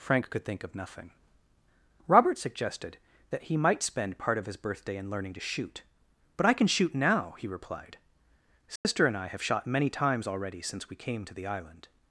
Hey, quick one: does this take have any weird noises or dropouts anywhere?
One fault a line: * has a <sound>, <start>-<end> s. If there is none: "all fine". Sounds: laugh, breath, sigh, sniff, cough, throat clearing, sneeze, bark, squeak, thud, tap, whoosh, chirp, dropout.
* has a dropout, 8.8-8.9 s